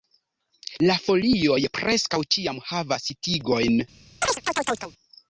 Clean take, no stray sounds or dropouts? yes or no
no